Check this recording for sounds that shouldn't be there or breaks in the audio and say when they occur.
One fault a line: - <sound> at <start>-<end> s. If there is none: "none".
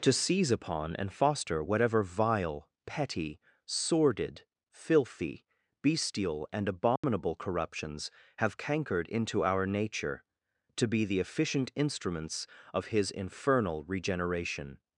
- dropout at 7.0-7.0 s